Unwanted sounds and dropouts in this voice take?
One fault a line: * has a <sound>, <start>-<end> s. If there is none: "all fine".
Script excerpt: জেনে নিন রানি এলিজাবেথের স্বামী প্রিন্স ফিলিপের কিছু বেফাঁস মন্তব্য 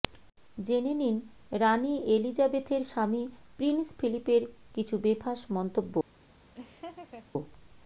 * has a laugh, 6.5-7.3 s